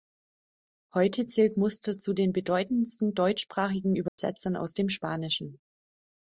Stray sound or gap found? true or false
true